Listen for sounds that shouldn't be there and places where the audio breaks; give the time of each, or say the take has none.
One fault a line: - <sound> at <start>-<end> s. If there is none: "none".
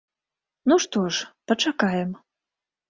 none